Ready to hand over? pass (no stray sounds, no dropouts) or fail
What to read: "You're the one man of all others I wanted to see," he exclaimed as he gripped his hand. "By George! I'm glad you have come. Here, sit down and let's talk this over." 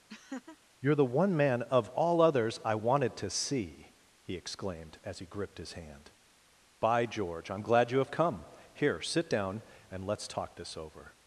fail